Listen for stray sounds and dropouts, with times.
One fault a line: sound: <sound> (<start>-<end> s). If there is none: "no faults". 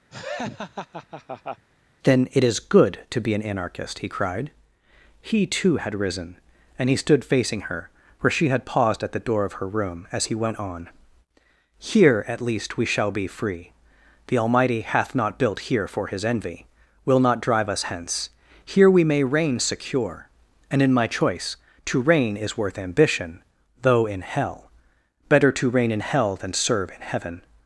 sound: laugh (0.1-1.6 s)